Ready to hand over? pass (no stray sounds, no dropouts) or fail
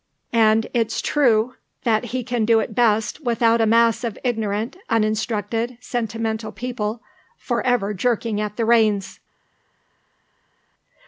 pass